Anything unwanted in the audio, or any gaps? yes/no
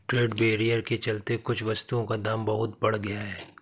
no